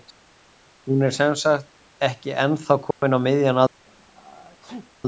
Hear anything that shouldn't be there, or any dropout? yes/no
yes